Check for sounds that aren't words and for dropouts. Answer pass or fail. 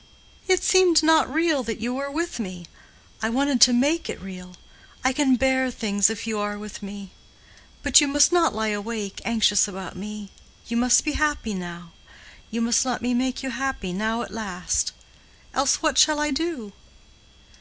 pass